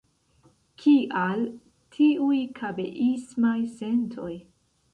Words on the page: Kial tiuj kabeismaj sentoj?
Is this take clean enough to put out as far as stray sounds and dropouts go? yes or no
yes